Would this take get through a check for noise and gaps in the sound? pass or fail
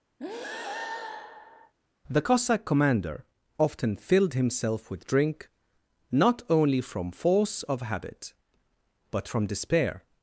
fail